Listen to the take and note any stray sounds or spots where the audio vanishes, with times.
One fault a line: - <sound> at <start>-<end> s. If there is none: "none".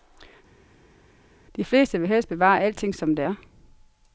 none